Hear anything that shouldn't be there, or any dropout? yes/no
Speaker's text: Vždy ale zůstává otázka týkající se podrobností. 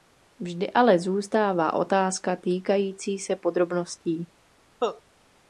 yes